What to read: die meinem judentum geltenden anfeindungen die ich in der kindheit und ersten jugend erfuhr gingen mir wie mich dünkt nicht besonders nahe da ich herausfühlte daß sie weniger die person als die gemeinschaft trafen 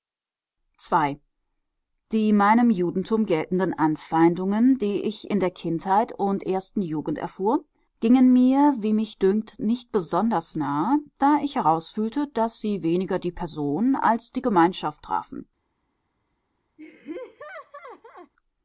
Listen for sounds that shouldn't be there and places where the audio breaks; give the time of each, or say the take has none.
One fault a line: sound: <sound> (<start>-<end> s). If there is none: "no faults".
sound: laugh (16.8-18.3 s)